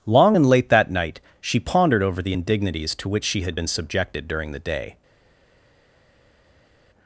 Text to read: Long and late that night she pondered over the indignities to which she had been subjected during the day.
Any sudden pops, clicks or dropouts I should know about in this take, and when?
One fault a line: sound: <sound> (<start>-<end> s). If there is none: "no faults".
no faults